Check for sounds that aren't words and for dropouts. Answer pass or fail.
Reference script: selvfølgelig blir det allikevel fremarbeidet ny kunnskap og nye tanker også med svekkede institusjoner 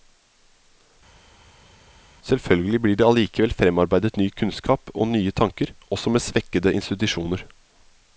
pass